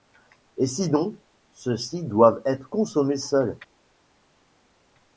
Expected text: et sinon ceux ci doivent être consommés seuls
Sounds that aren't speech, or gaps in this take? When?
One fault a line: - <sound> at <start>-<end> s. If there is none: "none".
none